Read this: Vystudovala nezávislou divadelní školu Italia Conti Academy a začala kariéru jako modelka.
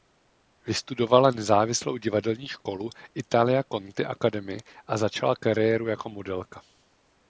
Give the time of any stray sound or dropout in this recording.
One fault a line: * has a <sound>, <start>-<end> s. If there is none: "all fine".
all fine